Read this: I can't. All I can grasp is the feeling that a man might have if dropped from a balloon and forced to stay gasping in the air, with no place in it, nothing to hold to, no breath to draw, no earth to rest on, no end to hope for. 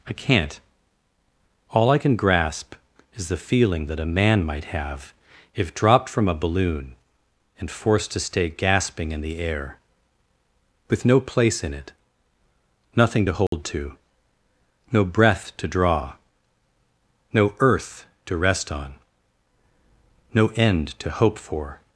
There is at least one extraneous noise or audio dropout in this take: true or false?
true